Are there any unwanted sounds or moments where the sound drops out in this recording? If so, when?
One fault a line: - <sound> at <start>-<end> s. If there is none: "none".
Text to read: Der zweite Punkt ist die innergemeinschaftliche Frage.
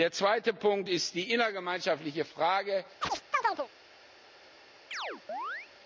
- chirp at 3.0-3.7 s
- chirp at 4.9-5.7 s